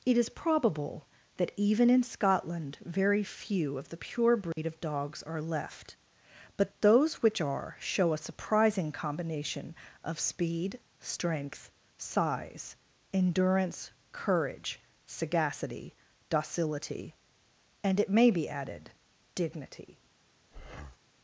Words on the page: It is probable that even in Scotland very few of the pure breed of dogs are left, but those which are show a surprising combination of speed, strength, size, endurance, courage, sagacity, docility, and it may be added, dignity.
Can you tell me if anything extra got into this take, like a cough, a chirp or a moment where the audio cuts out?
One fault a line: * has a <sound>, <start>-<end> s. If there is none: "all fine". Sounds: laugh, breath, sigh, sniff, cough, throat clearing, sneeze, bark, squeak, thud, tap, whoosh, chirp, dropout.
* has a dropout, 4.5-4.6 s
* has a breath, 20.5-21.0 s